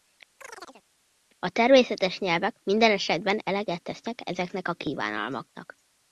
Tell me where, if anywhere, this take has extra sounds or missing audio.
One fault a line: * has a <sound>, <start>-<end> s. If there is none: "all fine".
* has a chirp, 0.4-0.8 s